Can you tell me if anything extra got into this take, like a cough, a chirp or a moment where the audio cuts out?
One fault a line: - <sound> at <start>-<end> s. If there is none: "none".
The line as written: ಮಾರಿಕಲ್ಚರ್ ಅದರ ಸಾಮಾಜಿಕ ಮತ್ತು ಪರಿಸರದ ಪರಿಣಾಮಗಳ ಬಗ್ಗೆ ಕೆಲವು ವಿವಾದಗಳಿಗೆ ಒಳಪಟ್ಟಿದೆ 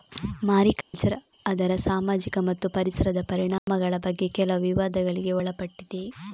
- dropout at 0.8-0.9 s
- dropout at 3.6-3.7 s